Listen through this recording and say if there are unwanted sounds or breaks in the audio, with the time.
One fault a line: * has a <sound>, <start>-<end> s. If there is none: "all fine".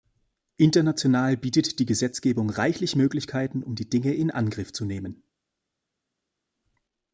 all fine